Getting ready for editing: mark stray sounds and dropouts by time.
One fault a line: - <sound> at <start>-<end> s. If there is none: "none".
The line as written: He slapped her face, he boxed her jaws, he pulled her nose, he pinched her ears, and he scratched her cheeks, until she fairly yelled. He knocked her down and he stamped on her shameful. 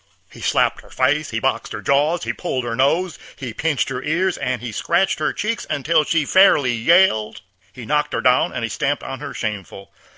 none